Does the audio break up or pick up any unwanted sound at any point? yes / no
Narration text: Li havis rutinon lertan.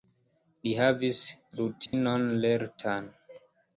yes